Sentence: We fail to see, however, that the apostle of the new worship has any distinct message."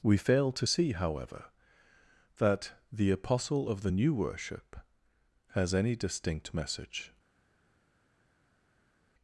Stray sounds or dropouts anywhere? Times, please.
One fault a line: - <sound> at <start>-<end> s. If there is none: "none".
none